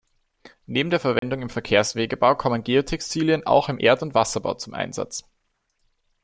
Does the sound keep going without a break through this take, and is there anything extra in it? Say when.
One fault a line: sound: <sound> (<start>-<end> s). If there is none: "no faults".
sound: dropout (1.2-1.2 s)